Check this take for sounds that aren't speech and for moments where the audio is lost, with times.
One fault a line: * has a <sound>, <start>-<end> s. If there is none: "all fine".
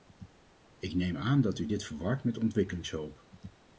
all fine